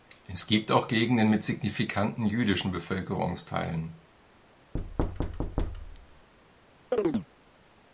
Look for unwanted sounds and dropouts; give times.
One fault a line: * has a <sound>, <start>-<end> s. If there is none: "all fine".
* has a thud, 4.7-6.3 s
* has a chirp, 6.9-7.3 s